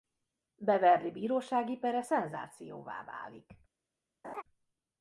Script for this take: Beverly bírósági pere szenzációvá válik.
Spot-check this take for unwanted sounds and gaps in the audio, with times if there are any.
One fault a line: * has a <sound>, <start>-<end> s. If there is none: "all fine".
* has a laugh, 4.2-4.4 s